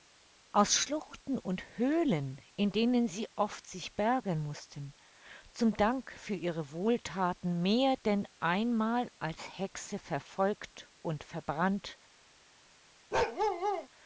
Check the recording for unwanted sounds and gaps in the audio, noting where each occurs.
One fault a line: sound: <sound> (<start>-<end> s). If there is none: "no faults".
sound: bark (13.1-13.9 s)